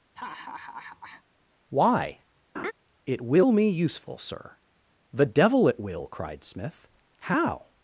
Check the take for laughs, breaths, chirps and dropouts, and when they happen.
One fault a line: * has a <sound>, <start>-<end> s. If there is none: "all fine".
* has a laugh, 0.2-1.2 s
* has a laugh, 2.5-2.7 s